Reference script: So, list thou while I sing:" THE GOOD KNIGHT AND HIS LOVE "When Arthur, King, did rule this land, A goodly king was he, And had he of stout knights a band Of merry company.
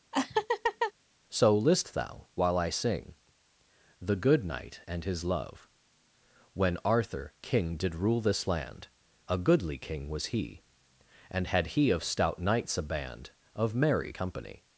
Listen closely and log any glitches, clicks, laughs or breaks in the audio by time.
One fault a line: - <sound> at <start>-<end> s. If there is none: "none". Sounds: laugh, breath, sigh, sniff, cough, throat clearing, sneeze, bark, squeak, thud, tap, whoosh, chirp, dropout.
- laugh at 0.1-0.9 s